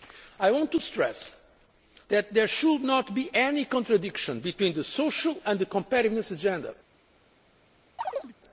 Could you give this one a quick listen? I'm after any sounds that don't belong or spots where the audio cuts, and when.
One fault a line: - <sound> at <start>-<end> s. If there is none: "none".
- chirp at 8.0-8.3 s